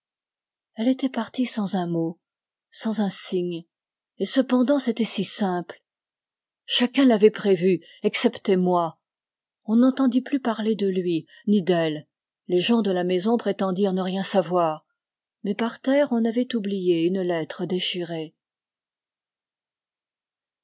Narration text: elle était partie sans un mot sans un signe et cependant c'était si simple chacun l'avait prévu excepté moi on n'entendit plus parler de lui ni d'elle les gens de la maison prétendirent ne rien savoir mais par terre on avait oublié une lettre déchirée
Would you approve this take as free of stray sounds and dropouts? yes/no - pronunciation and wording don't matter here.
yes